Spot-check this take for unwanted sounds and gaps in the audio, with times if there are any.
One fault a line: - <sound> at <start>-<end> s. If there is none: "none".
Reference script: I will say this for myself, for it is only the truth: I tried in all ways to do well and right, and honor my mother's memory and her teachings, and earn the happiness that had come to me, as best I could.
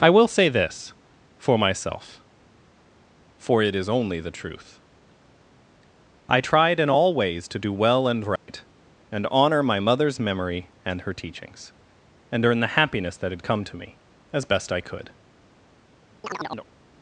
- dropout at 8.4-8.5 s
- chirp at 16.2-16.7 s